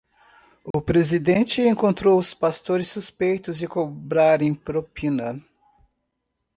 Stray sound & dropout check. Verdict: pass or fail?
fail